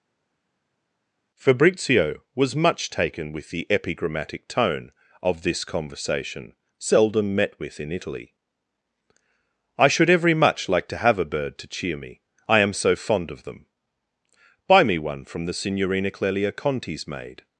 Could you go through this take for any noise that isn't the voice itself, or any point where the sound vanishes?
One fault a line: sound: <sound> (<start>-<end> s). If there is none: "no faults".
no faults